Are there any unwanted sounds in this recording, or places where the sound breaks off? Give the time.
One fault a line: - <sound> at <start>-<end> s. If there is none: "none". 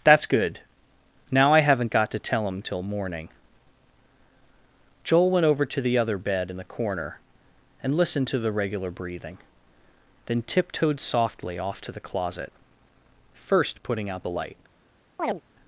- chirp at 15.2-15.4 s